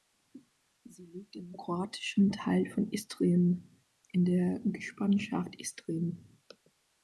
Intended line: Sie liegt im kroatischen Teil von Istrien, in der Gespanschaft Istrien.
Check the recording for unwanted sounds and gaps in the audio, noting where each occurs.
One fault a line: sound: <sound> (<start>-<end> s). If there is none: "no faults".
no faults